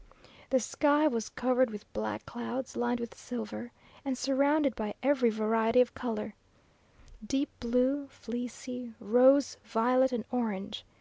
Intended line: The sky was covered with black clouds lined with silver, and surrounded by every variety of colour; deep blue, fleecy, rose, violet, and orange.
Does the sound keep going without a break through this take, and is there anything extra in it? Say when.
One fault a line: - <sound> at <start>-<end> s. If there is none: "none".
none